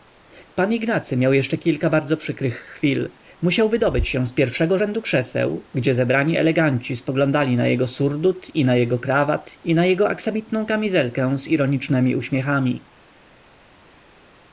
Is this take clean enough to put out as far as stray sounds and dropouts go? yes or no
yes